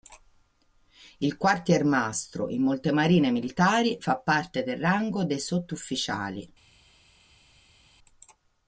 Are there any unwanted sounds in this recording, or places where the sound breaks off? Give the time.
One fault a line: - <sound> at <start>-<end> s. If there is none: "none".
none